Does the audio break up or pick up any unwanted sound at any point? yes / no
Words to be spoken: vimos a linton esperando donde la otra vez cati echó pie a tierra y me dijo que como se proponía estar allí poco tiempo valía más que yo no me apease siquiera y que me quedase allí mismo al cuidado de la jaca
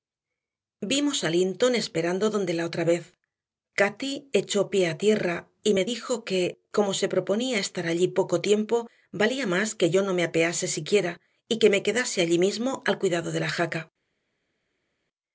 no